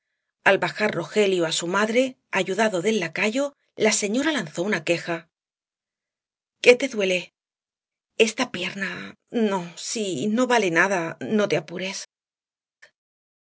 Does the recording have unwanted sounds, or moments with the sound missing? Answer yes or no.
no